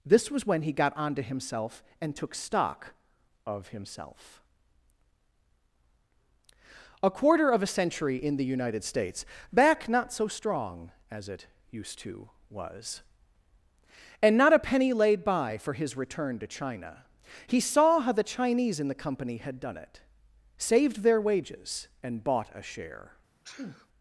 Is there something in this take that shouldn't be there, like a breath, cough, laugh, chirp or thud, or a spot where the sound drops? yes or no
yes